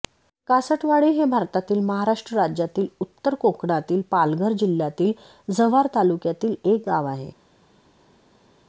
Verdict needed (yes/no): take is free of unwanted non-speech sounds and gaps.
yes